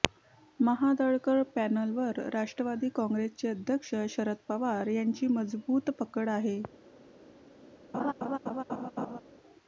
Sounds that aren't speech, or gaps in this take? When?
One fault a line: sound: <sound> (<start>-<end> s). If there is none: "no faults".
sound: laugh (7.9-9.2 s)